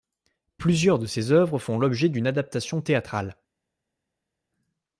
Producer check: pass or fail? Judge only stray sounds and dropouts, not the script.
pass